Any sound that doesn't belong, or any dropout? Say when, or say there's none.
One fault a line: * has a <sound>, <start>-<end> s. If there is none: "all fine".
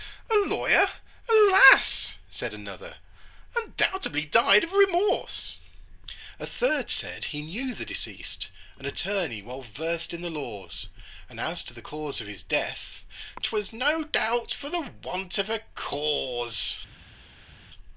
all fine